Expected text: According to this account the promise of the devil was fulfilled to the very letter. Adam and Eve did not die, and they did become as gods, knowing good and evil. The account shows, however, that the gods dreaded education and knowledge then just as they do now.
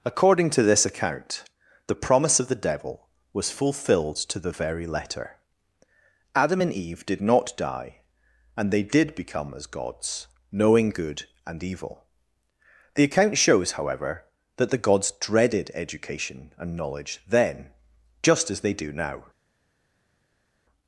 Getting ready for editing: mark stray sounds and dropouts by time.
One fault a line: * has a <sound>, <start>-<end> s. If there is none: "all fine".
all fine